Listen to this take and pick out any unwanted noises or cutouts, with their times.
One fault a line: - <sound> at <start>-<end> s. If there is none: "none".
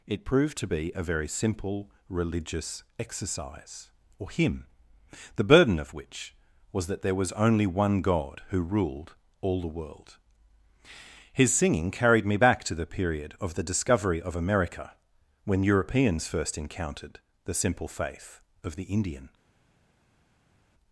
none